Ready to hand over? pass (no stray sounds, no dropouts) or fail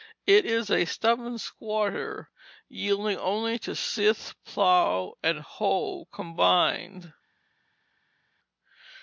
pass